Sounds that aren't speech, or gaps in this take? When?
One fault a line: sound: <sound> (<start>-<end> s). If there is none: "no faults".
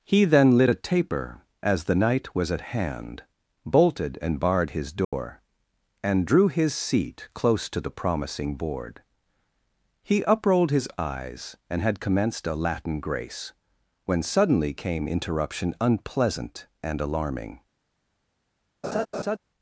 sound: dropout (5.0-5.1 s)
sound: laugh (18.8-19.4 s)